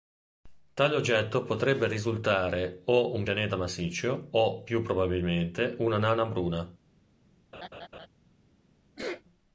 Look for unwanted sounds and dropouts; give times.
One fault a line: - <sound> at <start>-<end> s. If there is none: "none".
- laugh at 7.5-8.1 s
- sneeze at 9.0-9.2 s